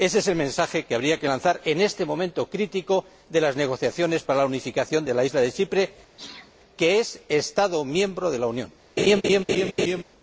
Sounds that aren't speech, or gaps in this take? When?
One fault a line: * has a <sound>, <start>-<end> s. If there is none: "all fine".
* has a sneeze, 6.2-6.5 s
* has a laugh, 9.0-10.0 s